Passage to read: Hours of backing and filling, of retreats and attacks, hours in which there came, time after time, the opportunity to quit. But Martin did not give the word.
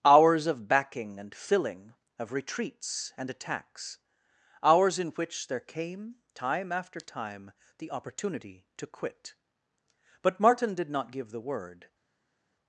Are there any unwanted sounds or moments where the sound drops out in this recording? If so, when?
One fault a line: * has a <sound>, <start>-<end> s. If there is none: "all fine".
all fine